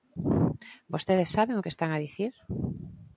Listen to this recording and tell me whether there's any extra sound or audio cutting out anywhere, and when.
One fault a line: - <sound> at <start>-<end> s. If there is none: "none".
none